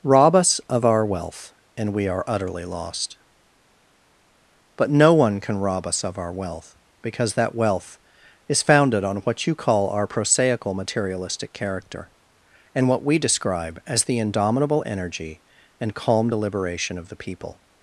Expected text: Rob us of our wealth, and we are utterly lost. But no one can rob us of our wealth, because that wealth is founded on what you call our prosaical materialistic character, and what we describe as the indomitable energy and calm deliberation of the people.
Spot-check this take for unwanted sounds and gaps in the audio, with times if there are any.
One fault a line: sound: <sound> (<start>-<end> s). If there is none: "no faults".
no faults